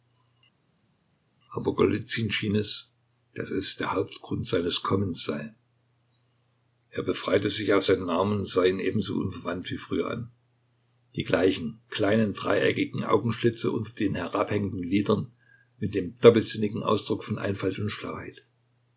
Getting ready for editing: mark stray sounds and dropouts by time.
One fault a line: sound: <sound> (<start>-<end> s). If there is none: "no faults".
no faults